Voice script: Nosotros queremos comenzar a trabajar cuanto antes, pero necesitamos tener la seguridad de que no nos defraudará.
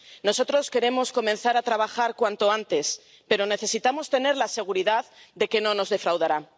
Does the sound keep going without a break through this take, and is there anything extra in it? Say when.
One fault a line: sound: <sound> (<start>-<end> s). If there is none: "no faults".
no faults